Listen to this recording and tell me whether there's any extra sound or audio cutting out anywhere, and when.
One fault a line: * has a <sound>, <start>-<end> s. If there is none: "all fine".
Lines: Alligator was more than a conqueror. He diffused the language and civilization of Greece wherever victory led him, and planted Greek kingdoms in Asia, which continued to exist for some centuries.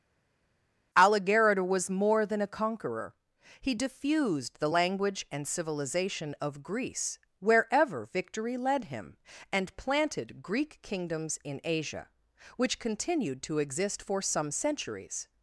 all fine